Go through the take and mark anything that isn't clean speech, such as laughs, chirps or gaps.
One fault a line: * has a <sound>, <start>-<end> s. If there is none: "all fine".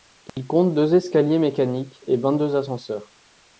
* has a dropout, 0.3-0.4 s